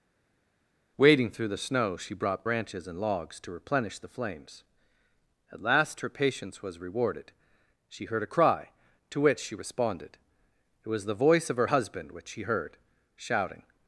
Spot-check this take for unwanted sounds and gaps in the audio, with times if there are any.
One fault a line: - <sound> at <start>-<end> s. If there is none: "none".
none